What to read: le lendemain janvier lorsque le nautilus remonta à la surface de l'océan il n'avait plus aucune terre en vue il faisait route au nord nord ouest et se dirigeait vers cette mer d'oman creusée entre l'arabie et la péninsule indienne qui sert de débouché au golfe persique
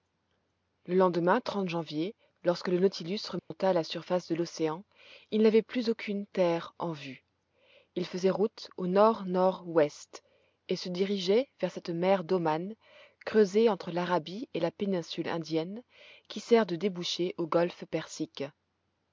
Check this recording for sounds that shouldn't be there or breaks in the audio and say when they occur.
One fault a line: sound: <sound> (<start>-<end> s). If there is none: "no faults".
sound: dropout (3.4-3.5 s)